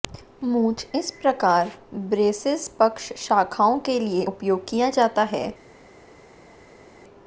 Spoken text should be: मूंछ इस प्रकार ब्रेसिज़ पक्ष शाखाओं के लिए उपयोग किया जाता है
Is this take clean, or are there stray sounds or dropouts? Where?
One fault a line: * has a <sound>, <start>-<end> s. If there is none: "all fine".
all fine